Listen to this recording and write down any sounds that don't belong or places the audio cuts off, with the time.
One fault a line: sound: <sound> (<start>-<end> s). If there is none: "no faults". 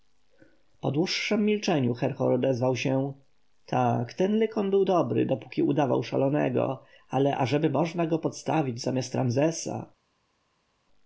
no faults